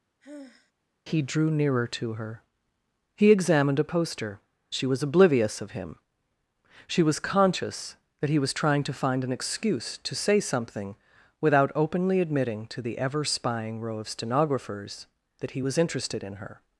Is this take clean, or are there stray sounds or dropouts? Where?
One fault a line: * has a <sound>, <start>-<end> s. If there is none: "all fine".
* has a sigh, 0.2-0.7 s